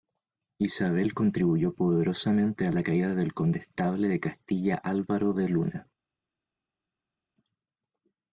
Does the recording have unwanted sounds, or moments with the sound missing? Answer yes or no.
no